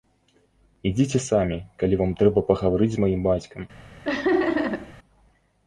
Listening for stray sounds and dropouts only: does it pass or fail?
fail